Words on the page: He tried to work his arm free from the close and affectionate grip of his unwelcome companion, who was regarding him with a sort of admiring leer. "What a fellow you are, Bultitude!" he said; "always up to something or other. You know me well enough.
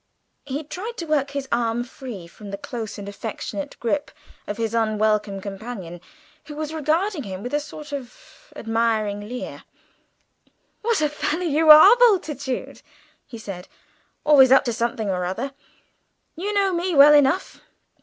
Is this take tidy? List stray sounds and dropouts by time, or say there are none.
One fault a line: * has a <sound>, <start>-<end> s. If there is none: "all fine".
all fine